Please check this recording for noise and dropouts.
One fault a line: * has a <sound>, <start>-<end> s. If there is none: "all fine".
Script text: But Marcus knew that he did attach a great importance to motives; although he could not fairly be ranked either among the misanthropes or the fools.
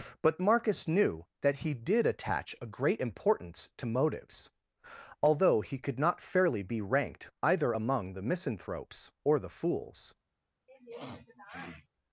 * has a sniff, 10.7-11.9 s